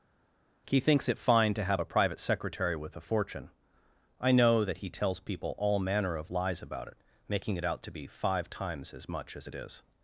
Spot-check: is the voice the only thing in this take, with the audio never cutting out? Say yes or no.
yes